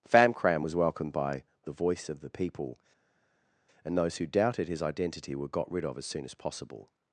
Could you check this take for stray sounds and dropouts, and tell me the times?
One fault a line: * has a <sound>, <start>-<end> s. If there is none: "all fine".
all fine